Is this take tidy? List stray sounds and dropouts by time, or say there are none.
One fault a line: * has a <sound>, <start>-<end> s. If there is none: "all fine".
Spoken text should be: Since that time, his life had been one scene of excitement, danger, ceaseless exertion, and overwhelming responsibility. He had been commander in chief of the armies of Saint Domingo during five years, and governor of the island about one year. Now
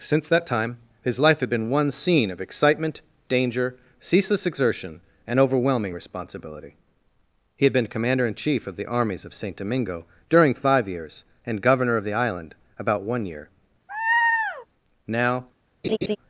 * has a laugh, 13.9-14.7 s
* has a laugh, 15.8-16.2 s